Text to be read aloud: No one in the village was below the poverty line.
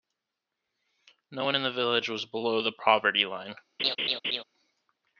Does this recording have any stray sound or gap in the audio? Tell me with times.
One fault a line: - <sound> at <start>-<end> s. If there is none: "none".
- laugh at 3.8-4.4 s